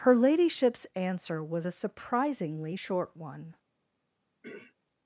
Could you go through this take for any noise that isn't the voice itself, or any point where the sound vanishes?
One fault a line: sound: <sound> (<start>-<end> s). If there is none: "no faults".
sound: throat clearing (4.4-4.8 s)